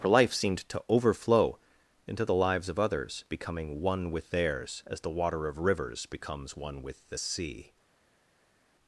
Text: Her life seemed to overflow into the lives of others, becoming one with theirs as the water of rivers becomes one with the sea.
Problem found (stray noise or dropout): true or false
false